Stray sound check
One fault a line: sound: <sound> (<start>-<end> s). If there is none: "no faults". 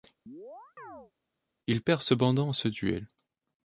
sound: chirp (0.3-1.1 s)